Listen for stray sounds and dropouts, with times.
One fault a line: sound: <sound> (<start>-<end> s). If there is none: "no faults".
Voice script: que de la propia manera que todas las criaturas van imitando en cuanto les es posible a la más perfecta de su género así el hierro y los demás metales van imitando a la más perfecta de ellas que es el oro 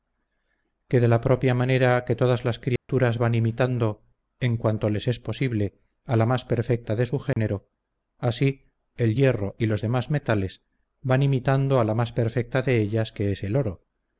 sound: dropout (2.8-2.9 s)
sound: dropout (7.3-7.4 s)